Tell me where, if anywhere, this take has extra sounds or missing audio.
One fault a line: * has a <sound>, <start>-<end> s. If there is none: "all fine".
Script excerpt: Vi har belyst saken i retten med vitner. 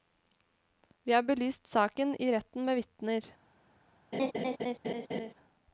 * has a laugh, 4.1-5.3 s